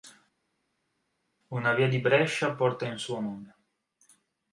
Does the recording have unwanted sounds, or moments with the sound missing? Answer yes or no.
no